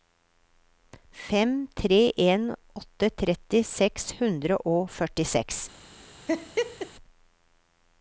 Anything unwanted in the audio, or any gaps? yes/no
yes